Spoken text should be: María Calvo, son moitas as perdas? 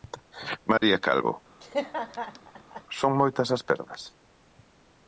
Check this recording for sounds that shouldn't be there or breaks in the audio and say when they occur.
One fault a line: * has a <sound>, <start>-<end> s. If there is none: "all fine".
* has a dropout, 0.8-0.8 s
* has a laugh, 1.6-2.8 s